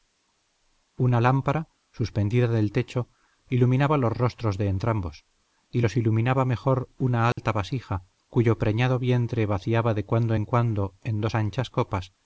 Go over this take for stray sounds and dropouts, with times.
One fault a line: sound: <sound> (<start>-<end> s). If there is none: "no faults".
sound: dropout (7.3-7.4 s)